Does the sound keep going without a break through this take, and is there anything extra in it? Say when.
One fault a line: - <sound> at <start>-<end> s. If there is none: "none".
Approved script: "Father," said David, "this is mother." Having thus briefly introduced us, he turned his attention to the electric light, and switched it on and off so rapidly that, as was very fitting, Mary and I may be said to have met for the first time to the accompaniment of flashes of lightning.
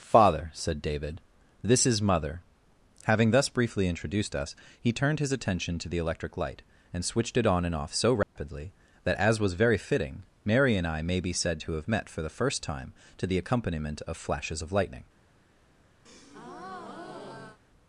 - dropout at 8.2-8.4 s
- breath at 16.1-17.6 s